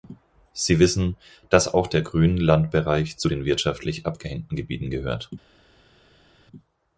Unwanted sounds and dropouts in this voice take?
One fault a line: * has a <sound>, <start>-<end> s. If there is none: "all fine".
all fine